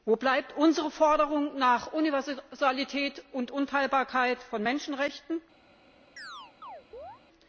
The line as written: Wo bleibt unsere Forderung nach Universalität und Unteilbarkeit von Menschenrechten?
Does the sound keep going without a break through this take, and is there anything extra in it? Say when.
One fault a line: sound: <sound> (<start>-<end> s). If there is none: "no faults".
sound: chirp (6.2-7.2 s)